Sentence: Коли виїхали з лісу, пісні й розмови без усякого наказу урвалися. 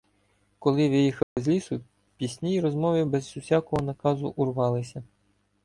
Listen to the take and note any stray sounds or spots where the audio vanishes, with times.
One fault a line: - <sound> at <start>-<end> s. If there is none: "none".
- dropout at 1.2-1.4 s